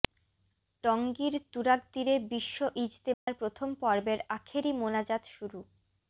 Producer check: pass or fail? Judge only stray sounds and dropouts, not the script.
fail